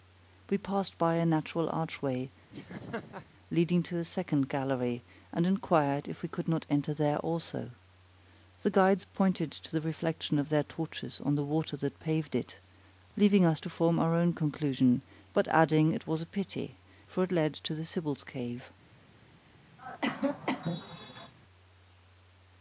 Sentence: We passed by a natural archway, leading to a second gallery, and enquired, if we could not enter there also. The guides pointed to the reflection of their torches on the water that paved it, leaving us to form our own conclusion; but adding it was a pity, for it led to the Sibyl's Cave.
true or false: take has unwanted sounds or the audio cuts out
true